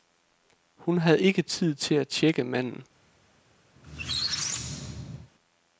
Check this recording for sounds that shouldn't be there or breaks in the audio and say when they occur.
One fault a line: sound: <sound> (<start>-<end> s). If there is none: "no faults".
sound: squeak (3.8-5.3 s)